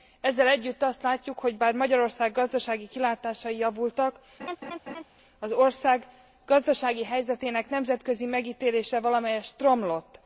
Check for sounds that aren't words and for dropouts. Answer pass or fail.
fail